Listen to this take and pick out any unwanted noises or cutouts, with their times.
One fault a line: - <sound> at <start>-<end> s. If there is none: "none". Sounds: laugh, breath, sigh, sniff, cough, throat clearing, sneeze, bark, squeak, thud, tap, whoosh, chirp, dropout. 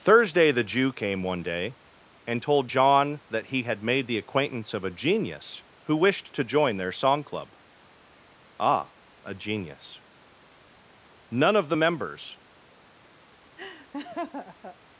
- laugh at 13.6-14.8 s